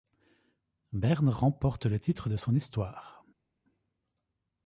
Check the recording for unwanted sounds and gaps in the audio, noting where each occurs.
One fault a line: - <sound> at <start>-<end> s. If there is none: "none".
none